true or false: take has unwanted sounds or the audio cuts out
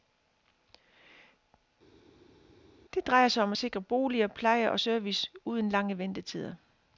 false